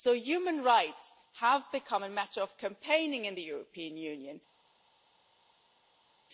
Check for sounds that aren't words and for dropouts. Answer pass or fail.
pass